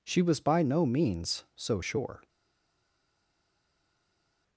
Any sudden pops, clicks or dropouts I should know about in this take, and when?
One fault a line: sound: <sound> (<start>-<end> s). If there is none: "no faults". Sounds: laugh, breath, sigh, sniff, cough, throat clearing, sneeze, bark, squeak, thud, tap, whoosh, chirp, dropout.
no faults